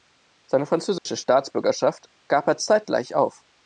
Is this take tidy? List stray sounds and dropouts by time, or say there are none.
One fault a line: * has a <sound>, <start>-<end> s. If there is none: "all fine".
* has a dropout, 1.0-1.1 s